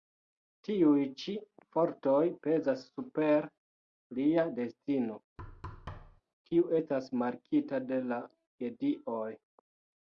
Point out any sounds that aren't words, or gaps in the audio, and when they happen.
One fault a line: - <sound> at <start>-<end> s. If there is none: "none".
- thud at 5.4-6.2 s